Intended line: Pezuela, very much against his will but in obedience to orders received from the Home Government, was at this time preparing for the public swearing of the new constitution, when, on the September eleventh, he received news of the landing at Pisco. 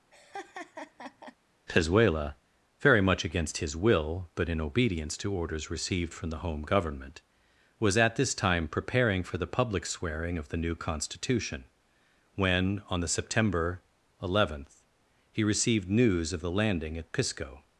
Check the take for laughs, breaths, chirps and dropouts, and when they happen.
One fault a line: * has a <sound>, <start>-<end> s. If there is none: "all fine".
* has a laugh, 0.1-1.4 s